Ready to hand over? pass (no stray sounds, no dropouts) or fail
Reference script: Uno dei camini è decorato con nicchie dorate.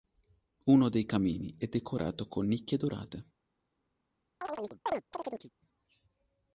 fail